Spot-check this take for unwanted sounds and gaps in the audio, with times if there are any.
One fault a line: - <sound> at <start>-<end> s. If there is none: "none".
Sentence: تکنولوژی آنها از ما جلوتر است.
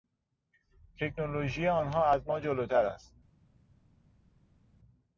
none